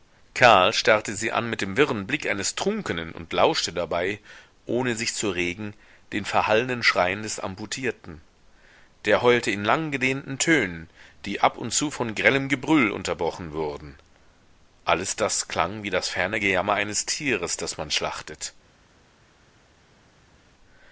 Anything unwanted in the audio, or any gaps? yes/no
no